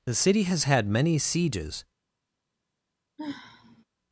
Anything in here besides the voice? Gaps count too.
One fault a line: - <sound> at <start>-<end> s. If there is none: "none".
- sigh at 3.2-3.8 s